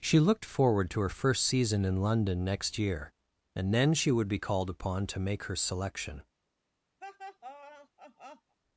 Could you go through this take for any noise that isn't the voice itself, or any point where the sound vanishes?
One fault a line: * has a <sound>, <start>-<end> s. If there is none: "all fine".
* has a laugh, 7.0-8.6 s